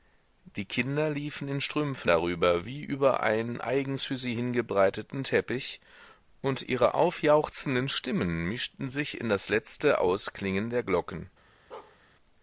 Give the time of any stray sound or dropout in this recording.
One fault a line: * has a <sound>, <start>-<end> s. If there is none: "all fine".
* has a bark, 11.7-12.0 s